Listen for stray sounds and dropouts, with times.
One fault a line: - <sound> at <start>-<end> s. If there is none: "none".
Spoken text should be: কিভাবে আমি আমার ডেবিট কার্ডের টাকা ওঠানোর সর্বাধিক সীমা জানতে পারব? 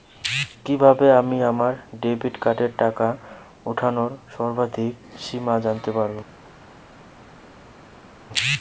none